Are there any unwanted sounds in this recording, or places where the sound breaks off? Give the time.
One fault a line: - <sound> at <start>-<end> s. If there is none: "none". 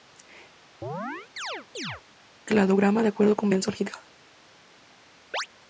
- chirp at 0.8-2.0 s
- chirp at 5.3-5.5 s